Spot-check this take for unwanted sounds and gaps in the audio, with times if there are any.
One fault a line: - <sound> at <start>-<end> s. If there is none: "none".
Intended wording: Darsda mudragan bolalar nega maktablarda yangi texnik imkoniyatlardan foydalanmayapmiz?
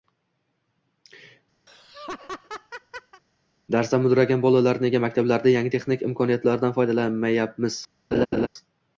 - laugh at 1.7-3.2 s
- laugh at 8.1-8.5 s